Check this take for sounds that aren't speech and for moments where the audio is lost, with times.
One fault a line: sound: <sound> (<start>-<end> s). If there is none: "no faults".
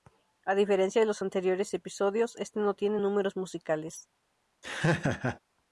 sound: laugh (4.6-5.4 s)